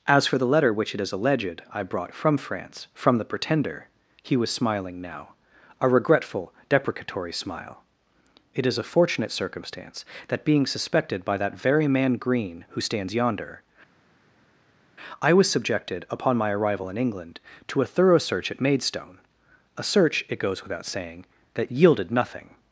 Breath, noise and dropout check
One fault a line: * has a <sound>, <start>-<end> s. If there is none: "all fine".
all fine